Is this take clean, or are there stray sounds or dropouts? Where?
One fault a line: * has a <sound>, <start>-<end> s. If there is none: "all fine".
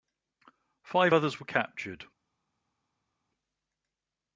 all fine